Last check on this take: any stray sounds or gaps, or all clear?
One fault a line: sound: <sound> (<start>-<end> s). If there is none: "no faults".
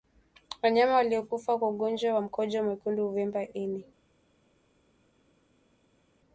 no faults